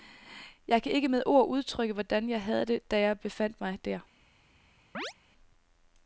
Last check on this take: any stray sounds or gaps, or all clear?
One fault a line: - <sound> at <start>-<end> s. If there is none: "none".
- chirp at 4.9-5.1 s